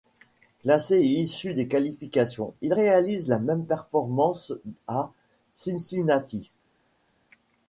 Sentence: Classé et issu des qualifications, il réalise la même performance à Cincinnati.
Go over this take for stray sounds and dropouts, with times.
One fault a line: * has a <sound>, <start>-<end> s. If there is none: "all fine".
all fine